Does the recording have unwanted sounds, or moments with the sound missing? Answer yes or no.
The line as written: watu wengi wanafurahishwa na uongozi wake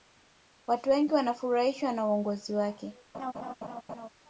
yes